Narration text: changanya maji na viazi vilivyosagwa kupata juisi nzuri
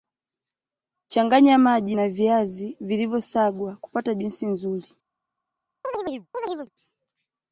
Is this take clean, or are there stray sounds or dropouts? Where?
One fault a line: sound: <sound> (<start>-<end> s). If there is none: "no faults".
sound: chirp (5.8-6.7 s)